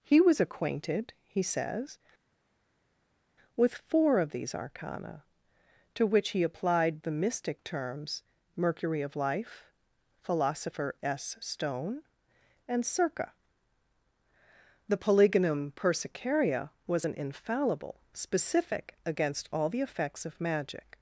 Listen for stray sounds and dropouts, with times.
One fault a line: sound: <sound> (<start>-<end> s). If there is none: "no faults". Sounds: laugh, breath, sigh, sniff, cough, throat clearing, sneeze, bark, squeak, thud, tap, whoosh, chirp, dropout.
no faults